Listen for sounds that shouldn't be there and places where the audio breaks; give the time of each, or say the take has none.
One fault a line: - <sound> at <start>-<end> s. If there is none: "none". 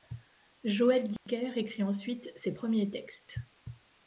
- dropout at 1.2-1.3 s
- dropout at 3.2-3.3 s